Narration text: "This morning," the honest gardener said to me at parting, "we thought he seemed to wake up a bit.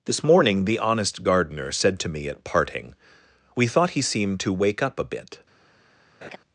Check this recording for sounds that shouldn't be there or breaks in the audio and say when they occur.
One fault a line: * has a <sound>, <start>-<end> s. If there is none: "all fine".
* has a laugh, 6.2-6.4 s